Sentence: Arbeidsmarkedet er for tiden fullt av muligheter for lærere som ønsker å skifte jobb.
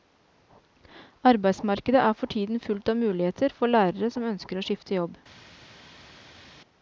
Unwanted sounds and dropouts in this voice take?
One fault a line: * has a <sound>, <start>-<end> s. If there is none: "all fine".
all fine